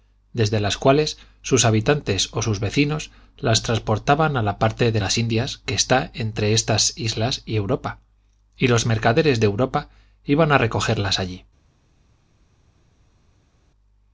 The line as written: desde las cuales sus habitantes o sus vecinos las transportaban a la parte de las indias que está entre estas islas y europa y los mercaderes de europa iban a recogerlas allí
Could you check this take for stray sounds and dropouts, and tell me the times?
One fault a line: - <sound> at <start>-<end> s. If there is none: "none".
none